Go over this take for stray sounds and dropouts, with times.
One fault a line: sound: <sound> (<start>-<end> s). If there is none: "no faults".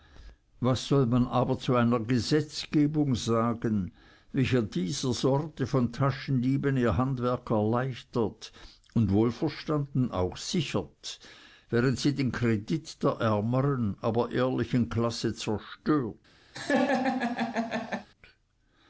sound: laugh (16.5-18.1 s)